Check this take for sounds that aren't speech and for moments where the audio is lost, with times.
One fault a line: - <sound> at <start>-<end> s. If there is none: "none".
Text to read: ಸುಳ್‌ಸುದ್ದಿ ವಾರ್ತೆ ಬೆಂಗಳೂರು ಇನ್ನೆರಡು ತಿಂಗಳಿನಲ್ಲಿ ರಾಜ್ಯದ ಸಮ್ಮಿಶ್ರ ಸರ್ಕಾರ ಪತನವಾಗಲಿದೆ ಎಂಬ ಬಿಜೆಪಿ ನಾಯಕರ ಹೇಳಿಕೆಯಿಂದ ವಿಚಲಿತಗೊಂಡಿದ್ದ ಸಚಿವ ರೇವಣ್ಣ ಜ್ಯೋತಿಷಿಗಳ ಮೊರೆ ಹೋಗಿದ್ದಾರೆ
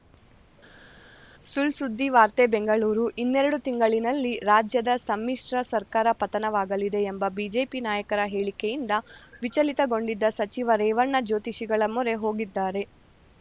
none